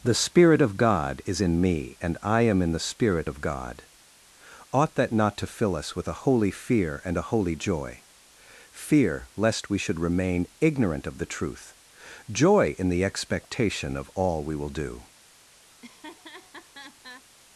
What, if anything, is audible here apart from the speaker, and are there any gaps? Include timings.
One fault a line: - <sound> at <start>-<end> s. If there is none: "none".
- laugh at 15.7-17.3 s